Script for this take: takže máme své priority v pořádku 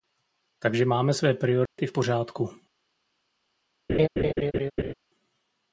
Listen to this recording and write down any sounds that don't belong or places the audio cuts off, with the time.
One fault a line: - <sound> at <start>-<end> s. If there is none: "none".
- dropout at 1.7-1.8 s
- laugh at 3.9-4.9 s